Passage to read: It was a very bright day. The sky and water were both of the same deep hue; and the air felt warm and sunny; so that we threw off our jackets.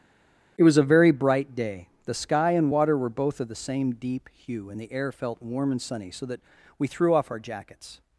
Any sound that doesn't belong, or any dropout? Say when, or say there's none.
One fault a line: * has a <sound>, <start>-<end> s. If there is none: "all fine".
all fine